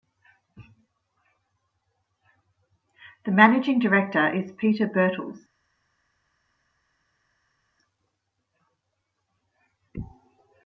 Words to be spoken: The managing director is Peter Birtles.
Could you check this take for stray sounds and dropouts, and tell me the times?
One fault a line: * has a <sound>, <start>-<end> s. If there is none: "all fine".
all fine